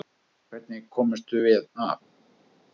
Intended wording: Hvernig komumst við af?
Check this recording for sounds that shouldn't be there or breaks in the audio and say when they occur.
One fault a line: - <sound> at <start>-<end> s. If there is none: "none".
none